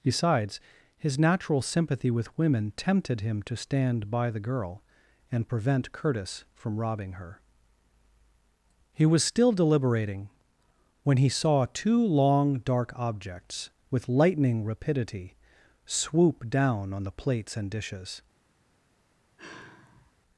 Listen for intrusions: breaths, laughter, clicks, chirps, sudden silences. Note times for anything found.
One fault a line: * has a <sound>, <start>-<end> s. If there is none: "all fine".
* has a sigh, 19.4-20.1 s